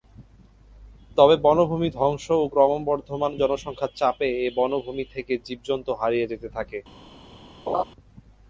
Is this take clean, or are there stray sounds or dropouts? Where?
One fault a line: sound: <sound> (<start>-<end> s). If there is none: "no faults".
sound: laugh (7.7-7.8 s)